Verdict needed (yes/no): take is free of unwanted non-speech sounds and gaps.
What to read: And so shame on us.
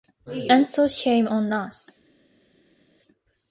yes